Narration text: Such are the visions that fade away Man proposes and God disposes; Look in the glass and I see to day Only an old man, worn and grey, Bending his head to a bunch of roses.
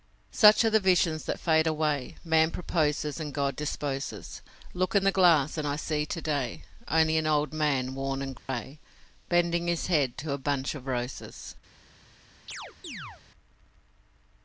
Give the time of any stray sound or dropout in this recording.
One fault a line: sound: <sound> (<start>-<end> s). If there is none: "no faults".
sound: dropout (8.4-8.5 s)
sound: chirp (12.5-13.2 s)